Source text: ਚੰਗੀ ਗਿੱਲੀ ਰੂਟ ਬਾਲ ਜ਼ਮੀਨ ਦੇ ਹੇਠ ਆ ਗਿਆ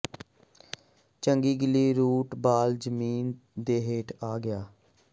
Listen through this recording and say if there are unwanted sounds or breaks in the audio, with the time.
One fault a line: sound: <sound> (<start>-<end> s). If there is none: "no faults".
no faults